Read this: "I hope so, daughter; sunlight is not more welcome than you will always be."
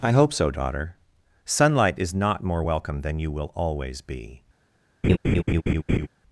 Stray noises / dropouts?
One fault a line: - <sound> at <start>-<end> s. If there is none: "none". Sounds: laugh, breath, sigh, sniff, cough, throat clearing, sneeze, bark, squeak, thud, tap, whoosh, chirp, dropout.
- laugh at 5.0-6.1 s